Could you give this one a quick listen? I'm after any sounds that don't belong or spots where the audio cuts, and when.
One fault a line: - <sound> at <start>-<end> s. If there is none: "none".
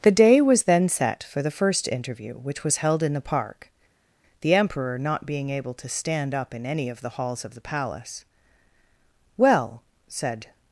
none